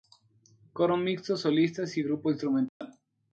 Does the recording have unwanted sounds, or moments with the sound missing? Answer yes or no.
yes